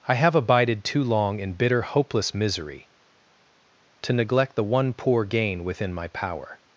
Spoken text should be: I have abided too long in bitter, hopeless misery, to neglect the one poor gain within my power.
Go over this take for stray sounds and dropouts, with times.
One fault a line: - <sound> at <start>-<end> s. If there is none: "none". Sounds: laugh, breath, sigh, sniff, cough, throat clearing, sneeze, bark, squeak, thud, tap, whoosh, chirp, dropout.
none